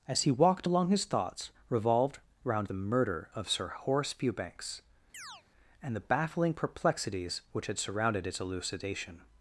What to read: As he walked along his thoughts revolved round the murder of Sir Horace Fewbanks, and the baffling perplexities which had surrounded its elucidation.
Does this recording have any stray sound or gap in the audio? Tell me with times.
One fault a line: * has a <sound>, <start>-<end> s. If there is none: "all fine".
* has a chirp, 5.1-5.4 s